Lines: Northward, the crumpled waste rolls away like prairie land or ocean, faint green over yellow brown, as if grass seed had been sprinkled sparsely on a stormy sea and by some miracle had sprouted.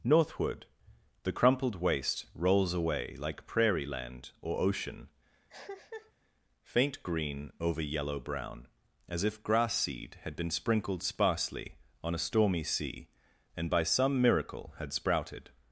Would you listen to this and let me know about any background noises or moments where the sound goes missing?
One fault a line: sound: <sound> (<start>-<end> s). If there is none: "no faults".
sound: cough (5.5-6.1 s)